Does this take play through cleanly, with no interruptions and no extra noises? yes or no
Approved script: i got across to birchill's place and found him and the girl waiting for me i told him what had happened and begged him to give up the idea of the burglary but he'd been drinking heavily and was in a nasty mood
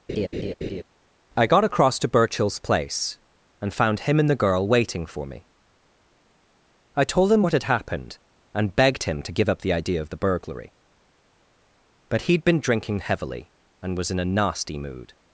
no